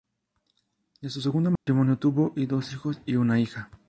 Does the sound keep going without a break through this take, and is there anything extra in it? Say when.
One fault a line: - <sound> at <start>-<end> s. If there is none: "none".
- dropout at 1.6-1.7 s